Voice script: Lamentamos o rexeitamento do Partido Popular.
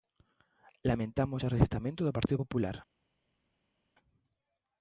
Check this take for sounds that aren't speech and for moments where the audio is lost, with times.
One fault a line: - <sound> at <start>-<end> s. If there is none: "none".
none